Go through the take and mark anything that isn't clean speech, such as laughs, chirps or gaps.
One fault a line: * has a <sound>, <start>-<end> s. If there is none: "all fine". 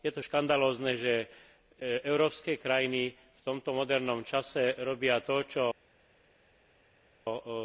all fine